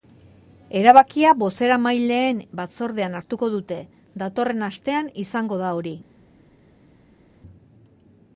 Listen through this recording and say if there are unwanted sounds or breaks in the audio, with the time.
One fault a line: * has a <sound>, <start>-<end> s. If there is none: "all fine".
all fine